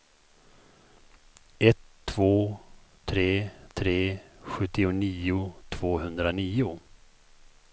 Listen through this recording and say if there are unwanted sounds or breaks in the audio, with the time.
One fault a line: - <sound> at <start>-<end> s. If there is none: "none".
none